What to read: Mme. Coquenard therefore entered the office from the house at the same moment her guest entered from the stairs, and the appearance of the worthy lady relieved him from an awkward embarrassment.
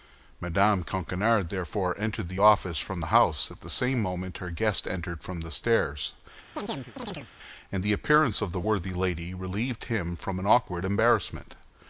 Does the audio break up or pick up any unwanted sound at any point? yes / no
yes